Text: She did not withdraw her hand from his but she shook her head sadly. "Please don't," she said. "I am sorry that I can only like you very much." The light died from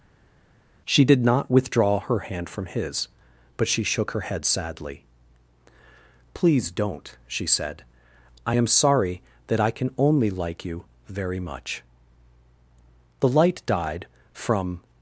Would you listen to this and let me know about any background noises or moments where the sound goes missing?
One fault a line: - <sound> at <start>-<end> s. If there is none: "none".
none